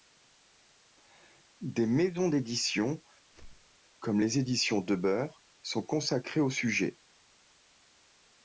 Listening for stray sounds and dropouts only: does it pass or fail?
fail